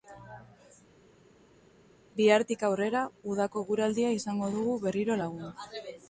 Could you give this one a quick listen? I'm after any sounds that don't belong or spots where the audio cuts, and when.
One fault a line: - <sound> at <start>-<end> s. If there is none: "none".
none